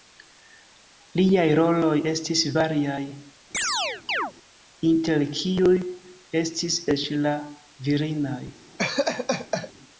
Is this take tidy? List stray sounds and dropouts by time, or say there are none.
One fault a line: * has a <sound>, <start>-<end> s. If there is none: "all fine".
* has a chirp, 3.5-4.3 s
* has a laugh, 8.8-9.7 s